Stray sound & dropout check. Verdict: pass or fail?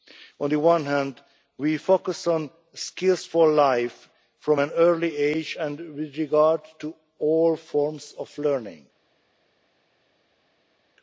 pass